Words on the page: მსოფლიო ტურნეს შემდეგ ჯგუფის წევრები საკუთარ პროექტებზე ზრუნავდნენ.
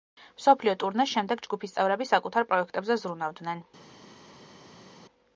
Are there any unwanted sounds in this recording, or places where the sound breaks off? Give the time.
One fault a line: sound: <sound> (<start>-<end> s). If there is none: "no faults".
no faults